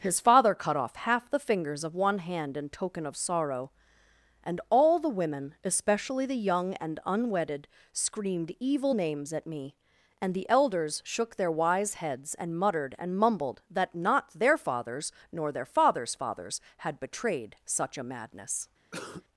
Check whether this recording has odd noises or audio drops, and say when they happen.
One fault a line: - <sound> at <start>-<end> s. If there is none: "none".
- cough at 18.9-19.2 s